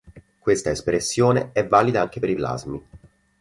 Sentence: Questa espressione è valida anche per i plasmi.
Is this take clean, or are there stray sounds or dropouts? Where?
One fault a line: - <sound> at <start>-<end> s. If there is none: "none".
none